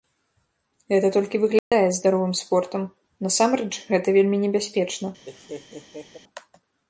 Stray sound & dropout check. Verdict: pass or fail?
fail